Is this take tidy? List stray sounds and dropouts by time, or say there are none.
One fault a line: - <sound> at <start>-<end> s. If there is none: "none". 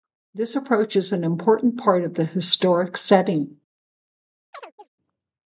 - chirp at 4.5-4.9 s